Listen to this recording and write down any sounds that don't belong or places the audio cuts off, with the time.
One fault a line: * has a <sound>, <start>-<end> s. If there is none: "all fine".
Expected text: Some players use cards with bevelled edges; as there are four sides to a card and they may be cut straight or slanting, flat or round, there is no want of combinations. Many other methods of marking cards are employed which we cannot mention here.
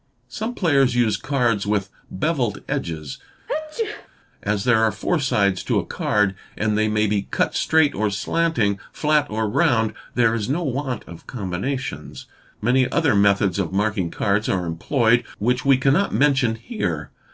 * has a sneeze, 3.5-4.1 s